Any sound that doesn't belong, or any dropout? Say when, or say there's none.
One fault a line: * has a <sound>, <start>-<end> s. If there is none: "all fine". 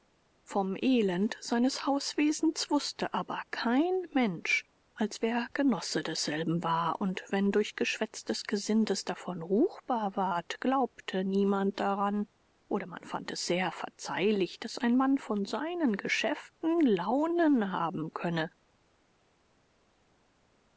all fine